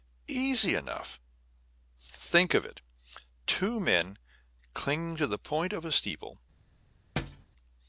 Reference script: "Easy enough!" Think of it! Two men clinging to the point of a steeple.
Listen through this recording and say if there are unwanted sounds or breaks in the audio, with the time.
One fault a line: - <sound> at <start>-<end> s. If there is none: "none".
- thud at 7.2-7.5 s